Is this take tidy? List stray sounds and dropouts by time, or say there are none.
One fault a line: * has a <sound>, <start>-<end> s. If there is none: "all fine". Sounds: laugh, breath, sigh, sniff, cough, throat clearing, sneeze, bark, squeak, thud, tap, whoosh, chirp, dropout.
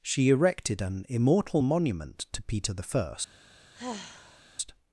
* has a sigh, 3.7-4.4 s